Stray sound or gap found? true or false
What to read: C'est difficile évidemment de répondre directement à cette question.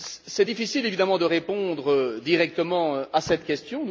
false